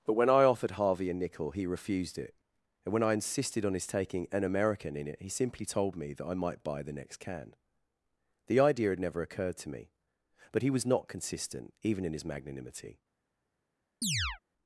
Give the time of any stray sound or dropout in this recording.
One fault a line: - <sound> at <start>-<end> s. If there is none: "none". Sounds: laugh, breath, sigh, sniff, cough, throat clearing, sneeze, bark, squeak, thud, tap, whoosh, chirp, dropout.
- chirp at 14.0-14.4 s